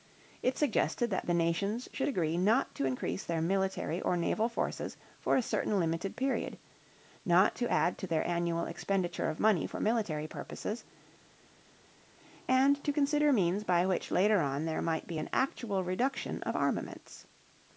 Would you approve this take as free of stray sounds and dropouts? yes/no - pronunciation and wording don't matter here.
yes